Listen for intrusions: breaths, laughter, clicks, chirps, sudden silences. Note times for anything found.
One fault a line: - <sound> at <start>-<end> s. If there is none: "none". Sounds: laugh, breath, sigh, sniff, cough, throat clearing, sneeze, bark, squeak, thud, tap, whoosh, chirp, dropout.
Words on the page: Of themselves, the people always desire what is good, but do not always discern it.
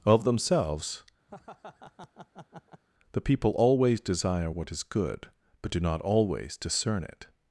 - laugh at 1.3-2.8 s